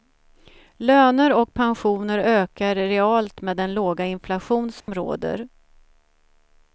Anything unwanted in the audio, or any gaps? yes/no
yes